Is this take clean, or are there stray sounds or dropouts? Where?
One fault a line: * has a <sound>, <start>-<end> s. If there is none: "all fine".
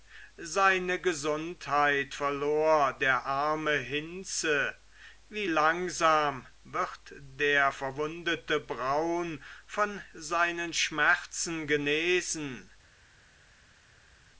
all fine